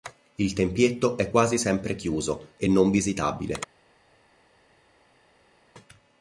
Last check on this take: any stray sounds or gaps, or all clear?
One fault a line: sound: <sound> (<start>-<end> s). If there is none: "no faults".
no faults